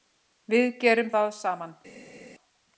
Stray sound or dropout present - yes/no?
no